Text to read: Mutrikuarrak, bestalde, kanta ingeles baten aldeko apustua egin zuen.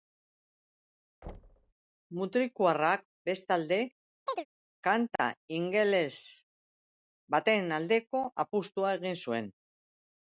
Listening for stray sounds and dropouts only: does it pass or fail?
fail